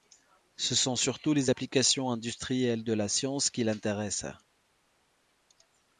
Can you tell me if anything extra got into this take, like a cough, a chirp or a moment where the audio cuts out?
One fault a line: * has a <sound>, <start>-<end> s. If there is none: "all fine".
all fine